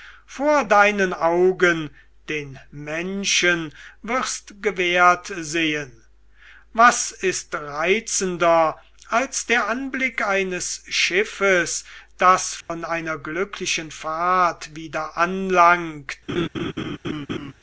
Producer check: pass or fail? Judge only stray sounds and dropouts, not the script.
fail